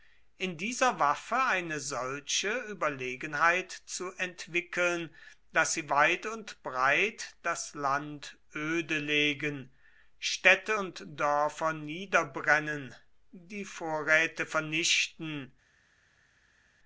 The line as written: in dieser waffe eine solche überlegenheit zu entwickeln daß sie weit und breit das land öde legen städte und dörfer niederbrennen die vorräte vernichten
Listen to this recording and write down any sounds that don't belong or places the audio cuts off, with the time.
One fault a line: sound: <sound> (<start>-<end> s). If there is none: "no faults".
no faults